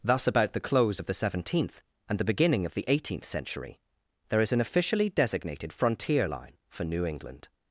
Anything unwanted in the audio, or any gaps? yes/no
no